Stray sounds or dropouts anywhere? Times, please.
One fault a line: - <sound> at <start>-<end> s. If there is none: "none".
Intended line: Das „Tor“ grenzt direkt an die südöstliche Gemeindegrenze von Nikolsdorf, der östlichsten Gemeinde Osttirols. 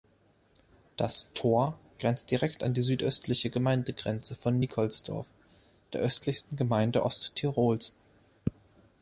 none